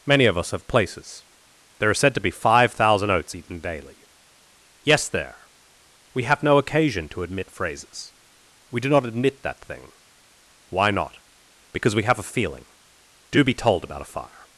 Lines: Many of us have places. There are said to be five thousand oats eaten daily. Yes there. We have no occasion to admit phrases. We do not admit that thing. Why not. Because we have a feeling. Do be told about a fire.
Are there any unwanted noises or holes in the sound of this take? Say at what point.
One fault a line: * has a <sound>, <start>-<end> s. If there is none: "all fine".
all fine